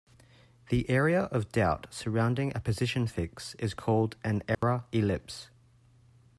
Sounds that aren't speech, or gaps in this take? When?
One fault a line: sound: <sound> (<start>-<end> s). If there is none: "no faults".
sound: dropout (4.5-4.6 s)